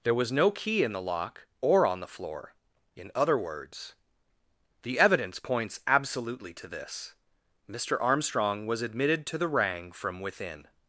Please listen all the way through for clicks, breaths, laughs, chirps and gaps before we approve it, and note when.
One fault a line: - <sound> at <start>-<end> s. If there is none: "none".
none